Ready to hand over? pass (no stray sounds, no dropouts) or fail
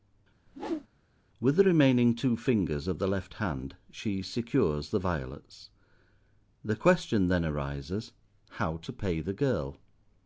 fail